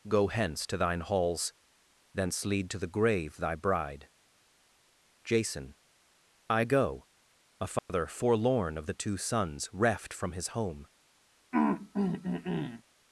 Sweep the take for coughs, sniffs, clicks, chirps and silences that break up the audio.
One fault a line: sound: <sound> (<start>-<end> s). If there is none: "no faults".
sound: dropout (7.8-7.9 s)
sound: throat clearing (11.5-12.8 s)